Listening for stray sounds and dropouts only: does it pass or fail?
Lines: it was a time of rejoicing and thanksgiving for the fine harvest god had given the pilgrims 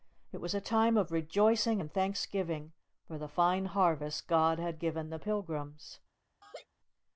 fail